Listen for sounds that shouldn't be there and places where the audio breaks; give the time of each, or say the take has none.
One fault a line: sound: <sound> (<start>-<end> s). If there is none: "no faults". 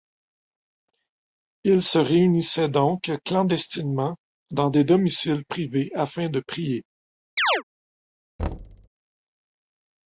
sound: chirp (7.4-7.6 s)
sound: thud (8.4-8.9 s)